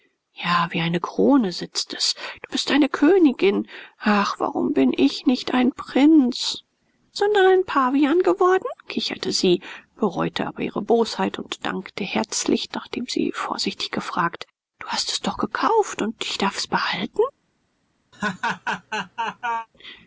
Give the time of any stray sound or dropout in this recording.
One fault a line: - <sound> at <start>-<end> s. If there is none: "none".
- laugh at 18.1-19.7 s